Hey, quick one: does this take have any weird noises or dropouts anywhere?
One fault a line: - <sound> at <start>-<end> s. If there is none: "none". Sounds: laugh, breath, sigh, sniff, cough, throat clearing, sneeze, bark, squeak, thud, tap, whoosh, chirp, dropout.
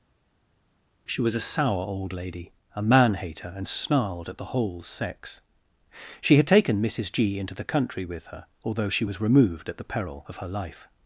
none